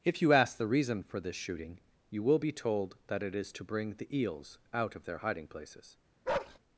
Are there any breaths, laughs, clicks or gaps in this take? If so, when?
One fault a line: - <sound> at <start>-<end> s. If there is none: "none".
- bark at 6.2-6.6 s